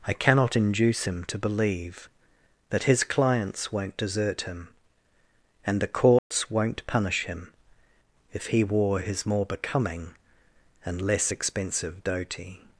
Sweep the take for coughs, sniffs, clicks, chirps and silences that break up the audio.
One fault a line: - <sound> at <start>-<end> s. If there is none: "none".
- dropout at 6.2-6.3 s